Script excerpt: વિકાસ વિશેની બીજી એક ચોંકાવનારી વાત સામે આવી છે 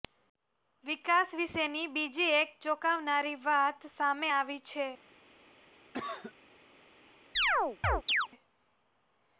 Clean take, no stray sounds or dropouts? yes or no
no